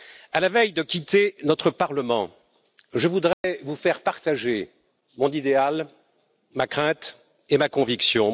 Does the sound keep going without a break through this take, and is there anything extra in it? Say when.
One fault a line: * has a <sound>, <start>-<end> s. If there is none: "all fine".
* has a dropout, 3.3-3.4 s